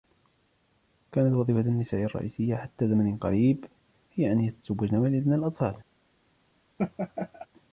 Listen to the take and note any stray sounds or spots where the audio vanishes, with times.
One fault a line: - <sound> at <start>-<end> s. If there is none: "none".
- laugh at 6.8-7.5 s